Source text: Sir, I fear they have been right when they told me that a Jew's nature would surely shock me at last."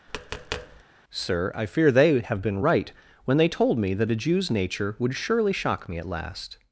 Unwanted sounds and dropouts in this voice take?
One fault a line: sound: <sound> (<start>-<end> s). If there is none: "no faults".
sound: tap (0.1-0.8 s)